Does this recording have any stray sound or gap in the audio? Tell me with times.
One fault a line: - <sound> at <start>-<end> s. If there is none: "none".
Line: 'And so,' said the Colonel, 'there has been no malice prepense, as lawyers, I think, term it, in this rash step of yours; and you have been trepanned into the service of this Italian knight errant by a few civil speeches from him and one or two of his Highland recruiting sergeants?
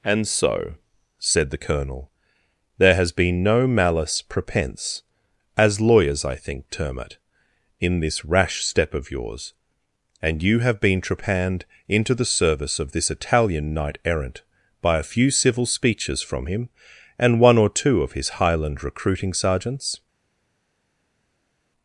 none